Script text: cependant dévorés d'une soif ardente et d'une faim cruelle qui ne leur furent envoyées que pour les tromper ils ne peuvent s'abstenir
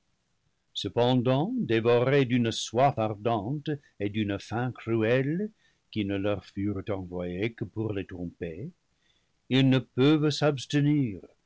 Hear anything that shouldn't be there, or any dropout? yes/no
no